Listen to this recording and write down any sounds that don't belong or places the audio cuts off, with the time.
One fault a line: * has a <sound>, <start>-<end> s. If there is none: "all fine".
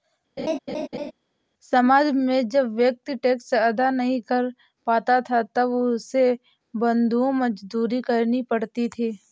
* has a laugh, 0.4-1.1 s